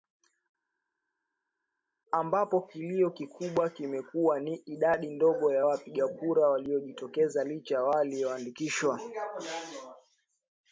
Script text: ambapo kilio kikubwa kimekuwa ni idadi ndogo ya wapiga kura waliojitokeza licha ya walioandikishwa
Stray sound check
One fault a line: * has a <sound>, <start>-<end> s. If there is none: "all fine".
all fine